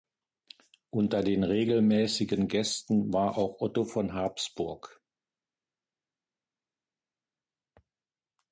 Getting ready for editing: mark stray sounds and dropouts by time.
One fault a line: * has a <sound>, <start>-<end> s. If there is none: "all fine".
all fine